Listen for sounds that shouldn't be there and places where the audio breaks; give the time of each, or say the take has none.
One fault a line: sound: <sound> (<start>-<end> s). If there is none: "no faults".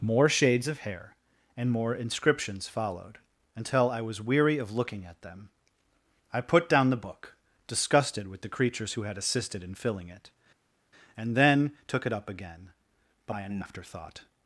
no faults